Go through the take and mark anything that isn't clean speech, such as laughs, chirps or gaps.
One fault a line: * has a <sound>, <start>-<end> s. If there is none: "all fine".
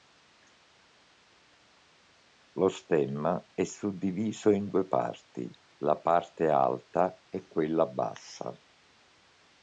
all fine